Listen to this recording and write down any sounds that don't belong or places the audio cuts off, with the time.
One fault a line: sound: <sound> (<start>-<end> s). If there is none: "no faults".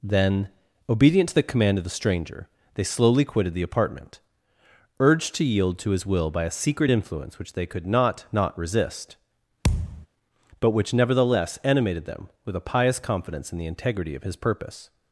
sound: thud (9.6-10.1 s)